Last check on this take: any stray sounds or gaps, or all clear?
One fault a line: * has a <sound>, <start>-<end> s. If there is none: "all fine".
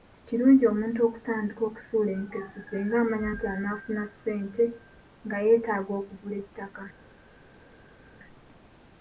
all fine